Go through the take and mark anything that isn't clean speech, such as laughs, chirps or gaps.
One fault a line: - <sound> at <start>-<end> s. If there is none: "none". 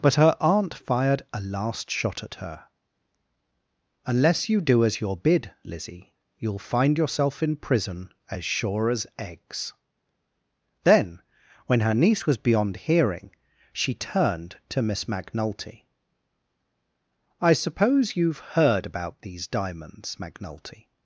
none